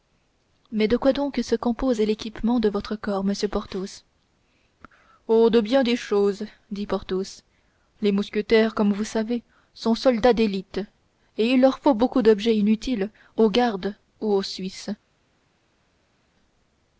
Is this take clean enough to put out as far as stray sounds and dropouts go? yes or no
yes